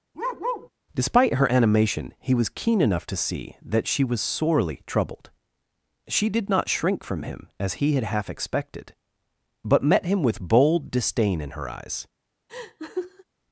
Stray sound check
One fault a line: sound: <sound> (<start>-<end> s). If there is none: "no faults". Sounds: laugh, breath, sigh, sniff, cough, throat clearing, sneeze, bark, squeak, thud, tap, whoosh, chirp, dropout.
sound: bark (0.1-0.7 s)
sound: laugh (12.5-13.2 s)